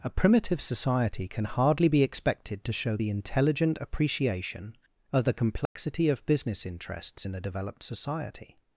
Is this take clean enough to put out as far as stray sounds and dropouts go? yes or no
no